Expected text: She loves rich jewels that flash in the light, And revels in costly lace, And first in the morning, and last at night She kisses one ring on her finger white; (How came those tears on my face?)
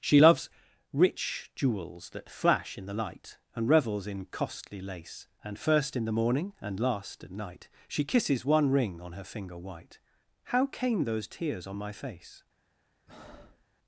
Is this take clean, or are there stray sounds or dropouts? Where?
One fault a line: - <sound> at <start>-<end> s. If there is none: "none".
- breath at 13.1-13.6 s